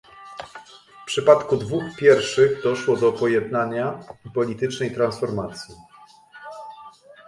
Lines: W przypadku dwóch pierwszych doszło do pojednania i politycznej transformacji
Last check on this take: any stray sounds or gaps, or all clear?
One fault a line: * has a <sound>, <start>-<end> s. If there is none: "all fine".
all fine